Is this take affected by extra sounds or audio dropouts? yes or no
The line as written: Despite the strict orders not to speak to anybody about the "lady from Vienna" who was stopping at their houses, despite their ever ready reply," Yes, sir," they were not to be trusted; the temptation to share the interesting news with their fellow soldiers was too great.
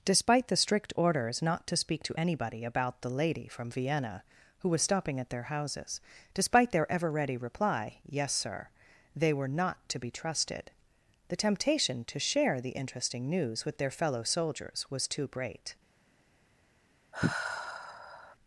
yes